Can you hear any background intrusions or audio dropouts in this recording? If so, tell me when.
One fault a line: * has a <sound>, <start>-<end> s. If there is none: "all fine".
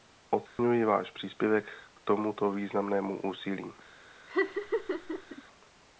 * has a dropout, 0.5-0.6 s
* has a laugh, 4.3-5.4 s